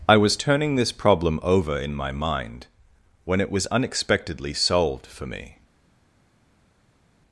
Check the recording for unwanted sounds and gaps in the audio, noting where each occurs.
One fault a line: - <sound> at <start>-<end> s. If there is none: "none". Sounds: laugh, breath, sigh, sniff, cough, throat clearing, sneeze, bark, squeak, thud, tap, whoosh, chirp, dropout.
none